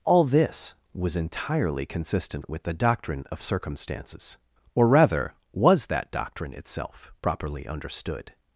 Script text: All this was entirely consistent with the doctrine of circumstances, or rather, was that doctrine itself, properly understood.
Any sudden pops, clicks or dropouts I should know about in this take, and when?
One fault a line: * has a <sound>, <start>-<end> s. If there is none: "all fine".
all fine